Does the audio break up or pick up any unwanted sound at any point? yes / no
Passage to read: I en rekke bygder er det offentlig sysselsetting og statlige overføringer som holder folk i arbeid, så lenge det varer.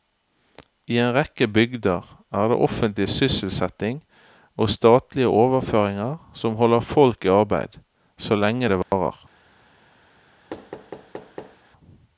yes